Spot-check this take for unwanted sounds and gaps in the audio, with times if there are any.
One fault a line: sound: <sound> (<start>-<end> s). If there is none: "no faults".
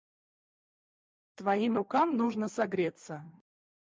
no faults